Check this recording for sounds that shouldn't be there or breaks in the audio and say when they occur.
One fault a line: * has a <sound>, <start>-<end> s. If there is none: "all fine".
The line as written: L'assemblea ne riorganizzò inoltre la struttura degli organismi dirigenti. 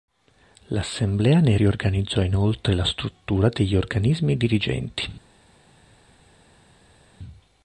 all fine